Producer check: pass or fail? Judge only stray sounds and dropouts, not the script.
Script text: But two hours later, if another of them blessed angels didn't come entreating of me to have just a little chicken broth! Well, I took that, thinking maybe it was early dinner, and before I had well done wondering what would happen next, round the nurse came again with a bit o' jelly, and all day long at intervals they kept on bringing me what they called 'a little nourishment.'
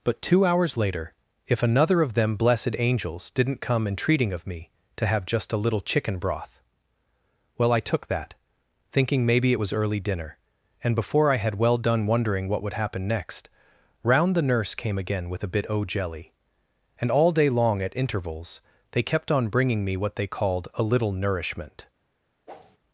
fail